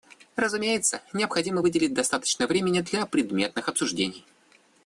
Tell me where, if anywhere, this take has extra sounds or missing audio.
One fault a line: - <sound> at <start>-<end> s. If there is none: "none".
none